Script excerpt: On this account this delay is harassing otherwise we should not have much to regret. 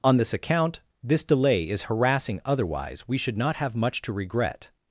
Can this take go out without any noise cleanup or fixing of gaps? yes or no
yes